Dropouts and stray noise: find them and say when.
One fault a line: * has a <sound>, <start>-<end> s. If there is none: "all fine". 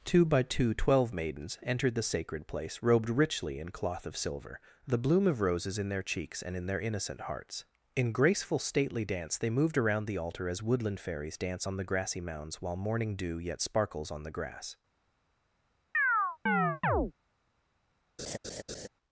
* has a chirp, 15.9-17.1 s
* has a laugh, 18.2-18.9 s